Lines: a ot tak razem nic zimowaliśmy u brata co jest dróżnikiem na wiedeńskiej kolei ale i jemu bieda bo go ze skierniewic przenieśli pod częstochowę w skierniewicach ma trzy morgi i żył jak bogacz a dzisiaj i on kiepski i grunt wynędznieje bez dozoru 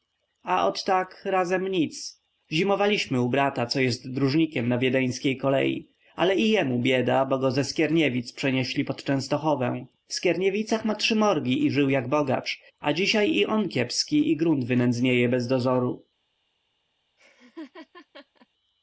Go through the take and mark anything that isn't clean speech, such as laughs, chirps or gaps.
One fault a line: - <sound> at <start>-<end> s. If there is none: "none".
- laugh at 17.2-18.5 s